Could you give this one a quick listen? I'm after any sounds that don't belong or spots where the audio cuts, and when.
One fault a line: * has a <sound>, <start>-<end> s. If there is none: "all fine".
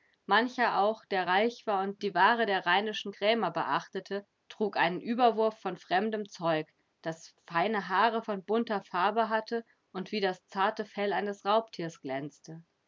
all fine